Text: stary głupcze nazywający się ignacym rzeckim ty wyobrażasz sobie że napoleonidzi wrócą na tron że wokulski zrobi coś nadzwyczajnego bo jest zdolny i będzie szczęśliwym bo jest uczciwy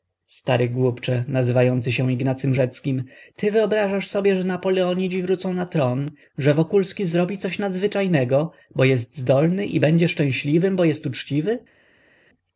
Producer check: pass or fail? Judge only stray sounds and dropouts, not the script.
pass